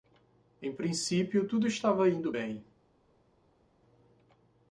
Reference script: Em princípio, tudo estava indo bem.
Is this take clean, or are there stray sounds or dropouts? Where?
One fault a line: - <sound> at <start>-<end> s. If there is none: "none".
none